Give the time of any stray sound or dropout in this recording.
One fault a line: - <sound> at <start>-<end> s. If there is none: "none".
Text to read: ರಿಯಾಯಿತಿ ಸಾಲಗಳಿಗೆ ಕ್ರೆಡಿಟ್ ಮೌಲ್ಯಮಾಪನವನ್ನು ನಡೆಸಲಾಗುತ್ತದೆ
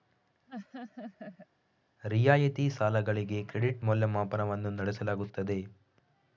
- laugh at 0.5-1.5 s